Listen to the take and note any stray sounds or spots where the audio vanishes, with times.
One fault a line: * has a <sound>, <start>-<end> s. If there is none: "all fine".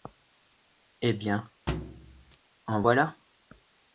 * has a thud, 1.7-2.4 s